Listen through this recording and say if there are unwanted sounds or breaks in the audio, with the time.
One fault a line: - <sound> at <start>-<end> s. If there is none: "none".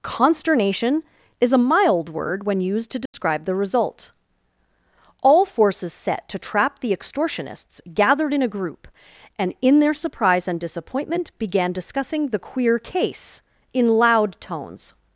- dropout at 3.1-3.1 s